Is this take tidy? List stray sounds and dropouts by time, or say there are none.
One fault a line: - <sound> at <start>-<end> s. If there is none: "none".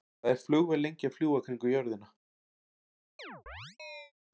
- chirp at 3.2-4.1 s